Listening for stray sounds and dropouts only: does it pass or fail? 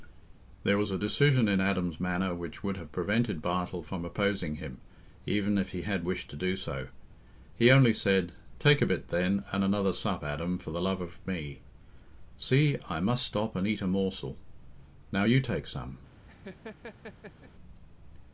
fail